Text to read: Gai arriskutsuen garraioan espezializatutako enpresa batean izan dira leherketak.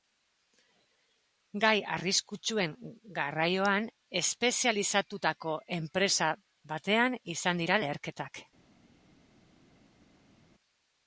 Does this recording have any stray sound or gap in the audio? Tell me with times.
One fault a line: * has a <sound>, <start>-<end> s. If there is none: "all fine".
all fine